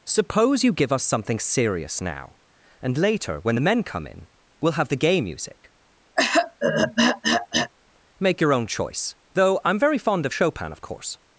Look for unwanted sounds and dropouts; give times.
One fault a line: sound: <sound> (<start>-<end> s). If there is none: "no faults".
sound: throat clearing (6.2-7.7 s)